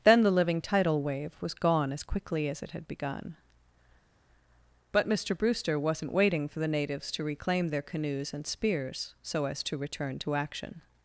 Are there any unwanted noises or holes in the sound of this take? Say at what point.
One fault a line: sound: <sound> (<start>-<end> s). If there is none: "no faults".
no faults